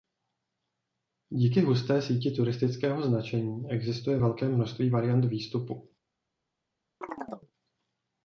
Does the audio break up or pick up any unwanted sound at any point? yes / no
yes